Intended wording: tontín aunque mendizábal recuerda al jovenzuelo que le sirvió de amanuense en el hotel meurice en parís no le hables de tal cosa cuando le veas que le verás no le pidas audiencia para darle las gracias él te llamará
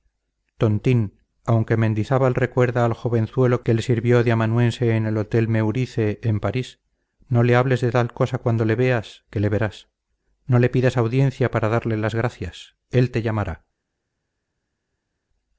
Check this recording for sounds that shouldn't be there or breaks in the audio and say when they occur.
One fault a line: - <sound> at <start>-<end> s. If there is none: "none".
none